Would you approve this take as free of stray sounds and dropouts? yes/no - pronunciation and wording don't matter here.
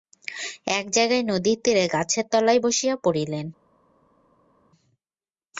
yes